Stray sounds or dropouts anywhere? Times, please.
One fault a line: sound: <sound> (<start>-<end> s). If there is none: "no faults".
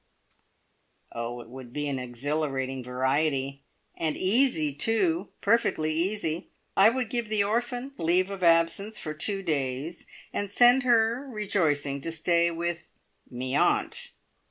no faults